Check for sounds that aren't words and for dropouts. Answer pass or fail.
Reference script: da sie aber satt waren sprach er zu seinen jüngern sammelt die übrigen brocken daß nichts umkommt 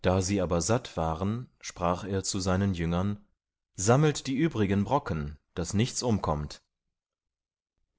pass